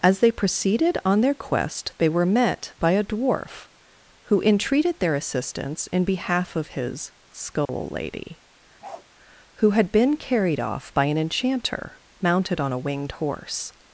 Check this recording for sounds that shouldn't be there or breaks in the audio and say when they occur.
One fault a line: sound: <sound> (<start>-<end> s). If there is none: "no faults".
sound: dropout (7.7-7.7 s)
sound: bark (8.8-9.1 s)